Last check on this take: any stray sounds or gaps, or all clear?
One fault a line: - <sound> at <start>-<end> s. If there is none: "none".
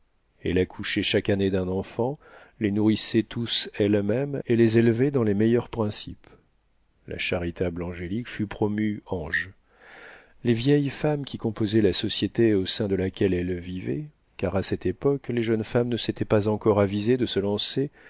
none